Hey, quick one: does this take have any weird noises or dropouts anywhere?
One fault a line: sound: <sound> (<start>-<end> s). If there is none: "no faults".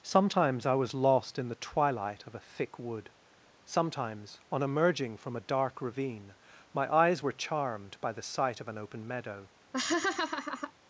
sound: laugh (9.7-10.7 s)